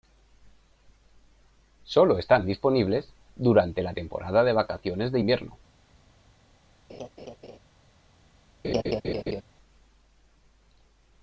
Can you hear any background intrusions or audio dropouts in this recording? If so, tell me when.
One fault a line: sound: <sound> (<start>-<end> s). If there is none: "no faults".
sound: laugh (6.9-7.6 s)
sound: laugh (8.6-9.4 s)